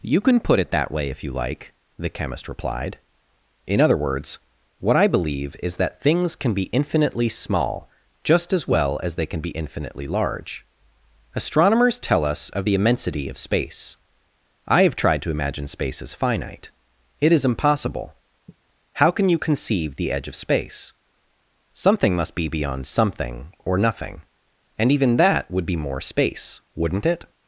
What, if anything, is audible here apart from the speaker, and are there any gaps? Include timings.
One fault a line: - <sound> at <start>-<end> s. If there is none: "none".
- sigh at 18.5-18.6 s